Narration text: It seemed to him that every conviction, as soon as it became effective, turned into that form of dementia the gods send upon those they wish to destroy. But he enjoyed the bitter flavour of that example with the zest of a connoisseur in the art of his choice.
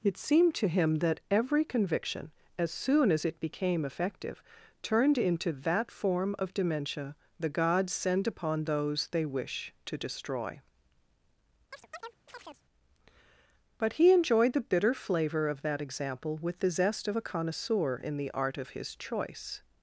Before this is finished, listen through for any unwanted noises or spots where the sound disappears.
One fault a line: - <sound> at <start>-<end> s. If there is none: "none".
- chirp at 11.7-12.6 s